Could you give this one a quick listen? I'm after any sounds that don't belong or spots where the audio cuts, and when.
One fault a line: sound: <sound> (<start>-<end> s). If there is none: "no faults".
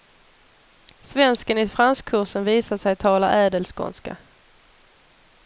no faults